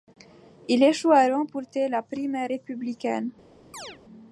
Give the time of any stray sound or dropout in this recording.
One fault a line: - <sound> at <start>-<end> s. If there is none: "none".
- chirp at 3.7-4.0 s